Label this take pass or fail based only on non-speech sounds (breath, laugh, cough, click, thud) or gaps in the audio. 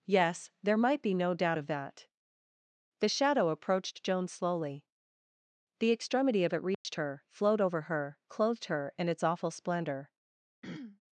fail